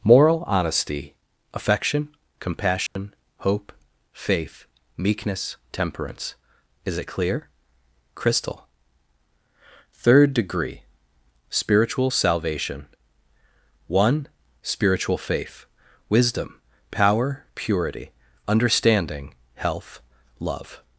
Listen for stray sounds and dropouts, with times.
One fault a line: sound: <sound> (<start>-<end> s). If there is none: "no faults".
sound: dropout (2.9-3.0 s)